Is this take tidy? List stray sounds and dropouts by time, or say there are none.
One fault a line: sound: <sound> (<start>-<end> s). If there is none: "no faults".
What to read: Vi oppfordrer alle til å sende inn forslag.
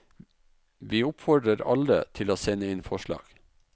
no faults